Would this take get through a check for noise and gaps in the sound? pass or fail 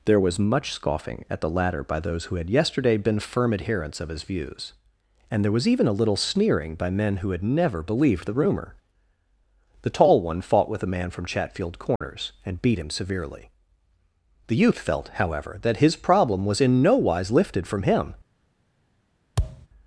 fail